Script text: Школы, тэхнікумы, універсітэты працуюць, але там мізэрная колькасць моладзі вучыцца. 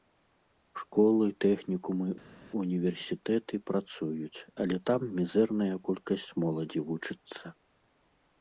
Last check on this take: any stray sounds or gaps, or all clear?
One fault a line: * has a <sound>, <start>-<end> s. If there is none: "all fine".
all fine